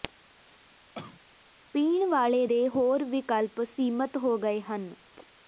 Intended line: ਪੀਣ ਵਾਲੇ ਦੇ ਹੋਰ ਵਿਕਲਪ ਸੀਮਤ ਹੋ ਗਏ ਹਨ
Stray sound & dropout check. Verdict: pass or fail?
fail